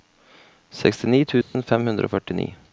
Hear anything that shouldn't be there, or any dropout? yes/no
yes